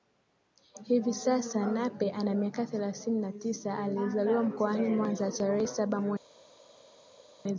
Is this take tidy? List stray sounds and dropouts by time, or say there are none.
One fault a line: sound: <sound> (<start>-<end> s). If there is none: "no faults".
no faults